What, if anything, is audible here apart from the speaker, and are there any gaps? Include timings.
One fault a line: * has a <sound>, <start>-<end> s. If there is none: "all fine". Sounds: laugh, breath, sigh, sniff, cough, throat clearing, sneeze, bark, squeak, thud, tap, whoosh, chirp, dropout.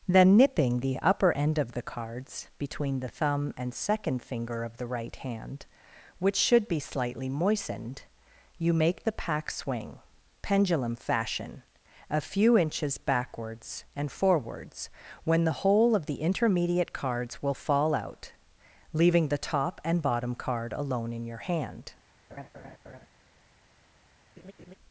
* has a laugh, 22.3-23.1 s
* has a laugh, 24.4-24.7 s